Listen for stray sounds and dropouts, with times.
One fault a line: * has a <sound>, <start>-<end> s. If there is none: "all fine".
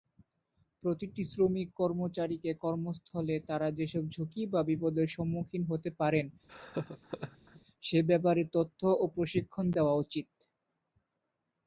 * has a laugh, 6.5-7.6 s